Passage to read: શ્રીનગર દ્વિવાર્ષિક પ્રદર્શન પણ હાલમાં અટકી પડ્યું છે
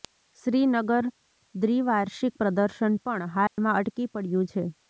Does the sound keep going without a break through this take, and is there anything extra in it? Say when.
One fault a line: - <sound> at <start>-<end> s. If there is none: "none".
- dropout at 3.5-3.6 s